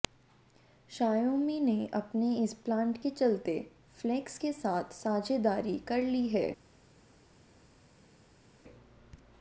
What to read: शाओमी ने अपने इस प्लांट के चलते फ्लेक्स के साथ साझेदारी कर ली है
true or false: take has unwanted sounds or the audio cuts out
false